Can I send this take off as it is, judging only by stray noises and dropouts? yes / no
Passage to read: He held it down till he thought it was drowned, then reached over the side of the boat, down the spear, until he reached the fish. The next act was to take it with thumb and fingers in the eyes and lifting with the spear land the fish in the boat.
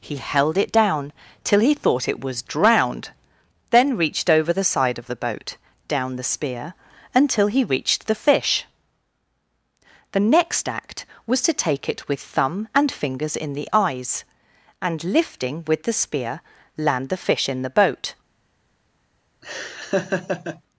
no